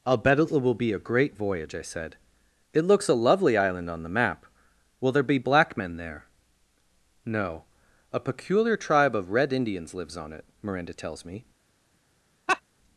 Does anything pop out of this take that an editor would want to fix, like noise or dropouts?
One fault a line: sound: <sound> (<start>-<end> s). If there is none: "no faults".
sound: laugh (12.5-12.6 s)